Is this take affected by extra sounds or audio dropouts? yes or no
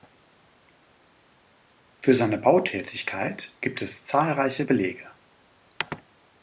no